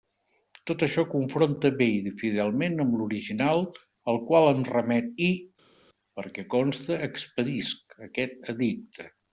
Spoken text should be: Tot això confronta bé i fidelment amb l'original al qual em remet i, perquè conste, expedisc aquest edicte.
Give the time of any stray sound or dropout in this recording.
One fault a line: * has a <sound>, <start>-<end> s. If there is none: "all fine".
all fine